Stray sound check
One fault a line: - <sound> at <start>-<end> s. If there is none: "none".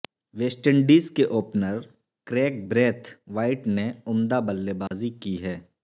- dropout at 4.9-4.9 s